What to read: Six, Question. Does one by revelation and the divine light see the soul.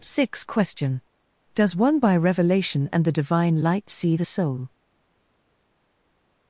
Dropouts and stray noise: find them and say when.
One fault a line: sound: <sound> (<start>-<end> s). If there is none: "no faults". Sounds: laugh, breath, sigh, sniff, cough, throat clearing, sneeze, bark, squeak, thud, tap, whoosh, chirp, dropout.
no faults